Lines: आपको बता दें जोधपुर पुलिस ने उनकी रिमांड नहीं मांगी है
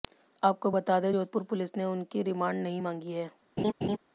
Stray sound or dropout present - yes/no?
yes